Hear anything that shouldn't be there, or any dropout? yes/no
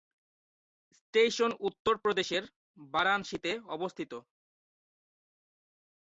no